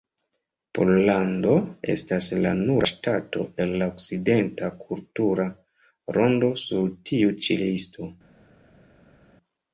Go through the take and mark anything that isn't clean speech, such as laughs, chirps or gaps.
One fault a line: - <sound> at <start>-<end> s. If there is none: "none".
none